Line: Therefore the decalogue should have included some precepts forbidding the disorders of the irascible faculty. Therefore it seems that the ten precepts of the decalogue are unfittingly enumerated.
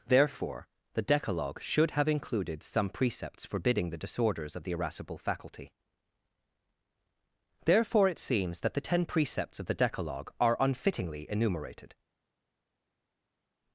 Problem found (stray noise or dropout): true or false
false